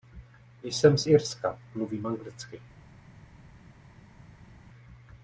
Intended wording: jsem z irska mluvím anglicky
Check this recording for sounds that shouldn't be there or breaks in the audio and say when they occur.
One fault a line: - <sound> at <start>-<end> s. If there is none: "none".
none